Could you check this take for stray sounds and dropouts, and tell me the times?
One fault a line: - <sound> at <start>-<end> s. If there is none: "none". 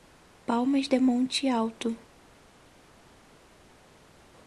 none